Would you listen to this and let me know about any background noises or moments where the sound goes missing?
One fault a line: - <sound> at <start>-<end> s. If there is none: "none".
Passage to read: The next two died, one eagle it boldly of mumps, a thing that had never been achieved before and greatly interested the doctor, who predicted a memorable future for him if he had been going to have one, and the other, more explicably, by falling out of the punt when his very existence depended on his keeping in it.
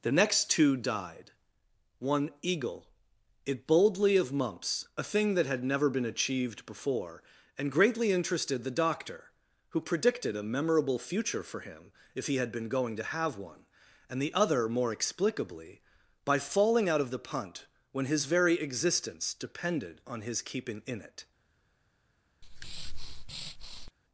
- breath at 22.4-23.9 s